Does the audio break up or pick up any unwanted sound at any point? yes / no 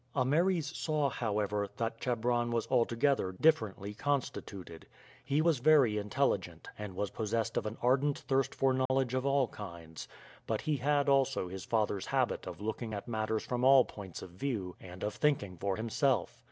yes